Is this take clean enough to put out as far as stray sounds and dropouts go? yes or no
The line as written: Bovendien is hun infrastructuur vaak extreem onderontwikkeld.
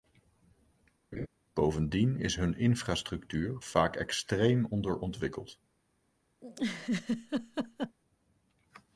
no